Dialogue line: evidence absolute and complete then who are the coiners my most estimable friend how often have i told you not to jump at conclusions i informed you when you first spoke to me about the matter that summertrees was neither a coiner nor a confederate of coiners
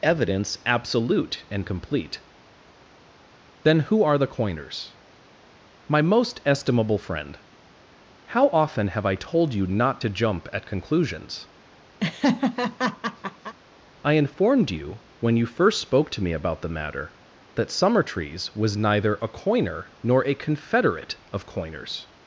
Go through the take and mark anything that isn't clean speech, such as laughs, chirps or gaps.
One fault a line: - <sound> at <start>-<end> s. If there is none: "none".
- laugh at 12.0-13.5 s